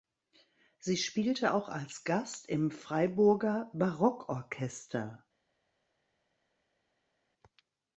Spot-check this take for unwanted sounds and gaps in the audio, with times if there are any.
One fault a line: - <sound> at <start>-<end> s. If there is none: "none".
none